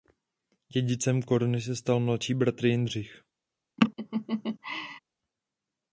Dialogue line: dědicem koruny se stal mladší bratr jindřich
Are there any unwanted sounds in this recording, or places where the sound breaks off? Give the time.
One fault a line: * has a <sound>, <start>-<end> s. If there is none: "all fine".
* has a laugh, 3.8-5.0 s